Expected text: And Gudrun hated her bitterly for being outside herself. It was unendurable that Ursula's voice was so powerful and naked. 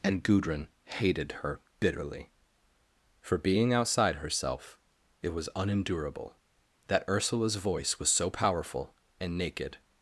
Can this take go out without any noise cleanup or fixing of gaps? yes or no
yes